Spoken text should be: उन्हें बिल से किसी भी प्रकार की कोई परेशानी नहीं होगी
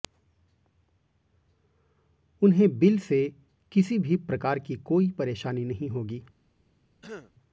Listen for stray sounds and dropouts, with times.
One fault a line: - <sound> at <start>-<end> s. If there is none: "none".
- throat clearing at 7.0-7.3 s